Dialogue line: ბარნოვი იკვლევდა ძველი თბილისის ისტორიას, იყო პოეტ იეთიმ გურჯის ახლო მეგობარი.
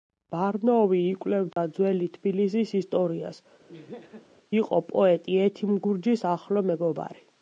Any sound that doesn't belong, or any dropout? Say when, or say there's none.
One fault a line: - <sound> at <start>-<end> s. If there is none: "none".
- dropout at 1.5-1.6 s
- laugh at 3.7-4.3 s